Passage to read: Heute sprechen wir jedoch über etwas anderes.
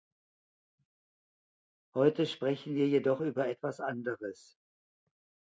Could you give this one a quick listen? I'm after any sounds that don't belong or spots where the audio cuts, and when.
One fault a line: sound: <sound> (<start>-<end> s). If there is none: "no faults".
no faults